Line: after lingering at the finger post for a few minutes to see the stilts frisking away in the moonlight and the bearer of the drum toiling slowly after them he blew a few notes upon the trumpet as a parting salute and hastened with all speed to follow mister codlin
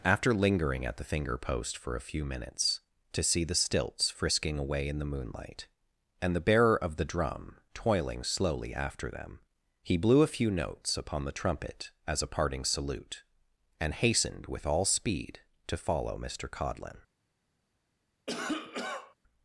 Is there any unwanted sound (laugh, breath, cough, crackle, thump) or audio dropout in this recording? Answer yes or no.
yes